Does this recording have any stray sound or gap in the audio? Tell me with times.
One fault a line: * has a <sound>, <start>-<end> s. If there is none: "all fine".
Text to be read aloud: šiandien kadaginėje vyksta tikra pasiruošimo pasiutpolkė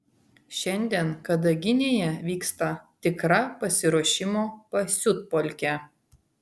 all fine